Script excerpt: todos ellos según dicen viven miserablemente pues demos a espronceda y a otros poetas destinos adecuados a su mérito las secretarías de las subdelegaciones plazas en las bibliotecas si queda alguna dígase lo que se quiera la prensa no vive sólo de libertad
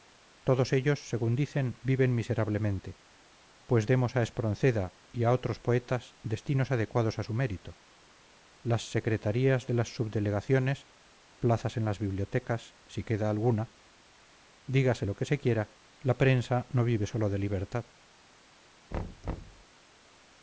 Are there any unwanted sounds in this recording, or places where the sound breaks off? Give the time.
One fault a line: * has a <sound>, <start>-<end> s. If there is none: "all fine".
* has a thud, 18.9-19.7 s